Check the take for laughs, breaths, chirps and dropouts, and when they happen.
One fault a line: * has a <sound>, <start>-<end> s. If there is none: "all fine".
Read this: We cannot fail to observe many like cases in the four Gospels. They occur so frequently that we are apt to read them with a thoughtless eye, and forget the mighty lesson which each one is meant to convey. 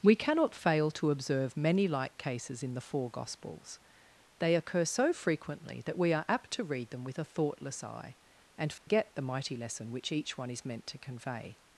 * has a dropout, 8.8-8.9 s